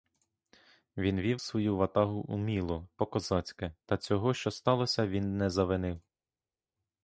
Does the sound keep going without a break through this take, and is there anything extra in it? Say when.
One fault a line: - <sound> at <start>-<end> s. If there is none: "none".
none